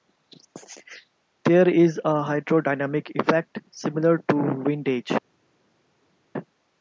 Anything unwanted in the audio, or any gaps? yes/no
no